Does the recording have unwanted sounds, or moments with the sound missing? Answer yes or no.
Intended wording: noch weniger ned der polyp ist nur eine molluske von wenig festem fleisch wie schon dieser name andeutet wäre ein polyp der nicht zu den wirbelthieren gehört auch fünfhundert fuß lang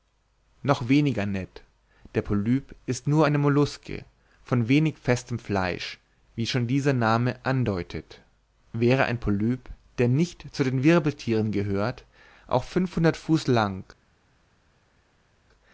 no